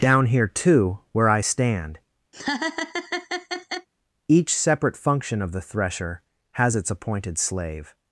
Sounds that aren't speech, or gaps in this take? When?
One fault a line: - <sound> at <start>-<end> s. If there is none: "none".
- laugh at 2.3-3.9 s